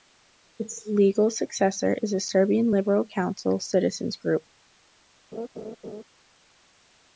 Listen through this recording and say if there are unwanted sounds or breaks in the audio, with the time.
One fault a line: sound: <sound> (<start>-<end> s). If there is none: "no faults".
sound: laugh (5.3-6.0 s)